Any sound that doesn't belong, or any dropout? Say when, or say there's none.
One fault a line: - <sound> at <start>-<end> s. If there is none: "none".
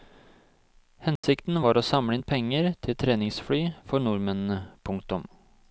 - dropout at 1.2-1.2 s